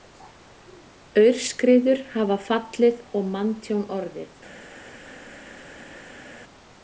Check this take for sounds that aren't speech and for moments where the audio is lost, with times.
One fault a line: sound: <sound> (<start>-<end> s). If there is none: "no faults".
no faults